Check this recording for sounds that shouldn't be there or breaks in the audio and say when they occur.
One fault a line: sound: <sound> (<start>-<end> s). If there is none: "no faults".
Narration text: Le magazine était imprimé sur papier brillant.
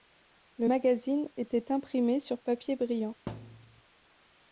sound: thud (3.3-3.8 s)